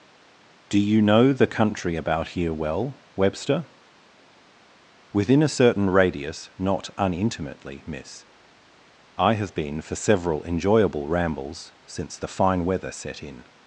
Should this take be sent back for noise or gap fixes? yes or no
no